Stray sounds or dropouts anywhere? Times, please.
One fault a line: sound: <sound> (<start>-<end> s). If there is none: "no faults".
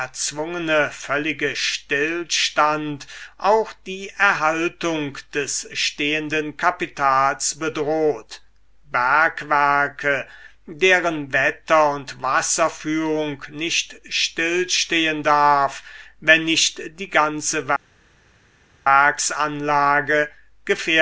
no faults